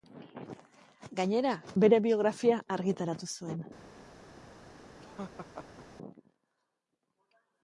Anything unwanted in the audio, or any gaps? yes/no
yes